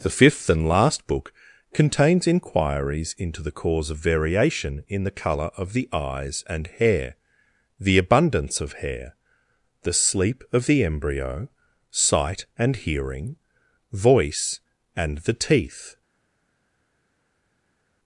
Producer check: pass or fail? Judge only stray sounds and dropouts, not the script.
pass